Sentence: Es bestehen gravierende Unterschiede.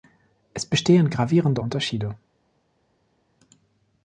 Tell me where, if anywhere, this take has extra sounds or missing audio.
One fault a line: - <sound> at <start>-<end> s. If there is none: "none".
none